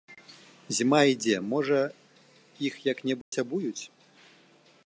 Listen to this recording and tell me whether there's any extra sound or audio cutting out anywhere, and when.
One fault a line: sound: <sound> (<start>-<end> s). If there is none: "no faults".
sound: dropout (3.2-3.3 s)